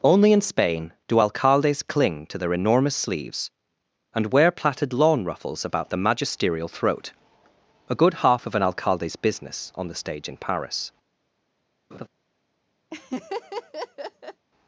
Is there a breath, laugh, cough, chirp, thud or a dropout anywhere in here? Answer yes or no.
yes